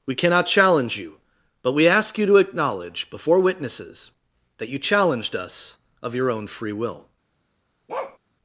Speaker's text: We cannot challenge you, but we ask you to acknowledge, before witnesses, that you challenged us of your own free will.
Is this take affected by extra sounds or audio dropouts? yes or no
yes